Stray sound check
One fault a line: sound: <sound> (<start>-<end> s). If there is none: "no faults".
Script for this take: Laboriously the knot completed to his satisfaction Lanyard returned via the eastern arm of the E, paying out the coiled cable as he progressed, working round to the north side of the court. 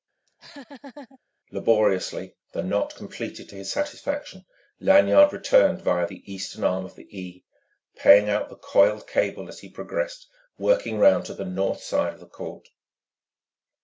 sound: laugh (0.3-1.2 s)